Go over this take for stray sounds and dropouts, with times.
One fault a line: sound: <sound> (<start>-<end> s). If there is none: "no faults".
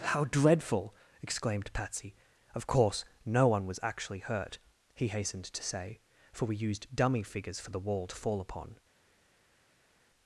no faults